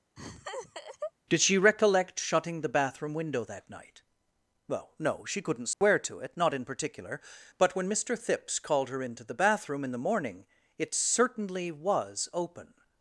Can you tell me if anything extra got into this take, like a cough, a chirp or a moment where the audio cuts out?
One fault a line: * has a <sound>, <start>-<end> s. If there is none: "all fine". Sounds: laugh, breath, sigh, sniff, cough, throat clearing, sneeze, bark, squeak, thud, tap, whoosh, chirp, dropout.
* has a laugh, 0.2-1.1 s
* has a dropout, 5.7-5.8 s